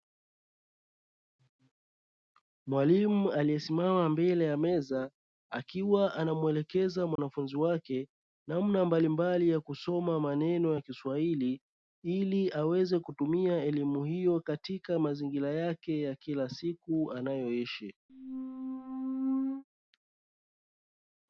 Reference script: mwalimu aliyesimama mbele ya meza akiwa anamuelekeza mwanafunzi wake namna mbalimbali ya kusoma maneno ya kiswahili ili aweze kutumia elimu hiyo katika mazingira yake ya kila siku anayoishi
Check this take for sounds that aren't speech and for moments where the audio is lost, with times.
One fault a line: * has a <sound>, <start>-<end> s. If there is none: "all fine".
* has a dropout, 7.2-7.2 s
* has a squeak, 18.1-19.6 s